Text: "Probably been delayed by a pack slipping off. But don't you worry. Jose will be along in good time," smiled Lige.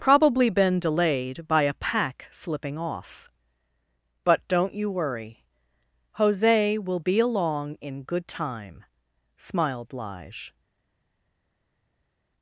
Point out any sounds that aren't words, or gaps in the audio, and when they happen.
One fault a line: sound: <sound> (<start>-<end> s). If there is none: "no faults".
no faults